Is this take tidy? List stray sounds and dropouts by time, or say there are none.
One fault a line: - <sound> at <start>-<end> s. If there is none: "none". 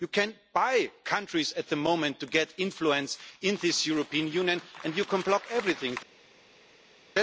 none